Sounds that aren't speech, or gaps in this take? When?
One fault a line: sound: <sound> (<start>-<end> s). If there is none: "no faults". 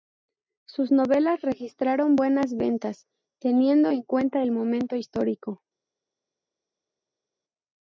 no faults